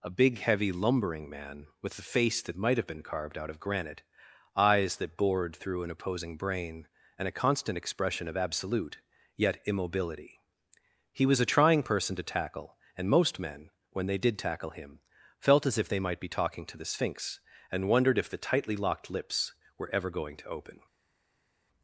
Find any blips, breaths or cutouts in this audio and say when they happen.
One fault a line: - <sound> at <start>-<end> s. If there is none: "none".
none